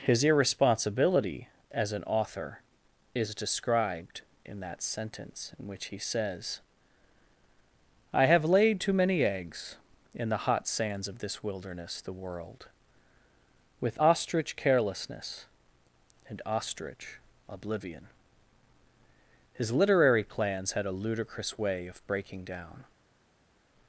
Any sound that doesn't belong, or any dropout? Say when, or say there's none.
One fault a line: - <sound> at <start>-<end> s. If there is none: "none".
none